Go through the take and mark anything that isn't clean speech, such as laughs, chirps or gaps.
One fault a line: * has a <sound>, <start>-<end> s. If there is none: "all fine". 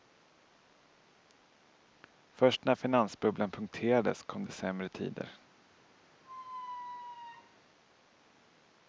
* has a squeak, 6.2-7.6 s